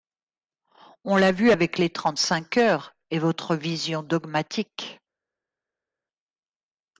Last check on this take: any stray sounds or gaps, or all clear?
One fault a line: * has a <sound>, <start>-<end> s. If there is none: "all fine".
all fine